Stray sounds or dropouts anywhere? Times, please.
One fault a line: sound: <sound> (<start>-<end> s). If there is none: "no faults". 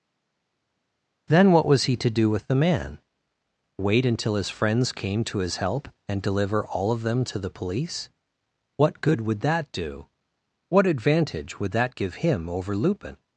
no faults